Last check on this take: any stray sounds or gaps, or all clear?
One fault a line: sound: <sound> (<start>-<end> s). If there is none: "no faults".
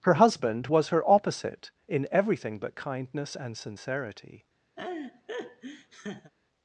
sound: laugh (4.8-6.3 s)